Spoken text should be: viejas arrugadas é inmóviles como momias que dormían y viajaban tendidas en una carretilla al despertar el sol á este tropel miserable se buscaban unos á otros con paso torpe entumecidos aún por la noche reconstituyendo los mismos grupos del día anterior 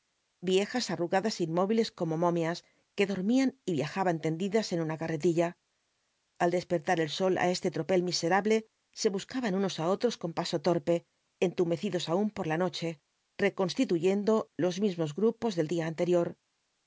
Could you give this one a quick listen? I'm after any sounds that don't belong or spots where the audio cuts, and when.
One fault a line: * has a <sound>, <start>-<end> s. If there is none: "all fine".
all fine